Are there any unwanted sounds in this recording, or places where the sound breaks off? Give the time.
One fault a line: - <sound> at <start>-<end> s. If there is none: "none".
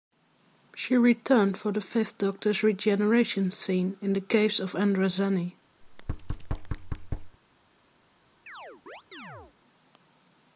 - thud at 5.8-7.4 s
- chirp at 8.5-9.5 s